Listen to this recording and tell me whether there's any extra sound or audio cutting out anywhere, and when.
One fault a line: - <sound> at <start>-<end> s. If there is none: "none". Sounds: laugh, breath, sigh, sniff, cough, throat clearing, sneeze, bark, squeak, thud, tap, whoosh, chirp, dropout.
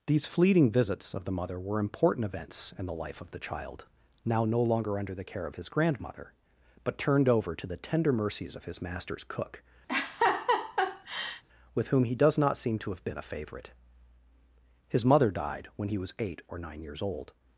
- laugh at 9.9-11.4 s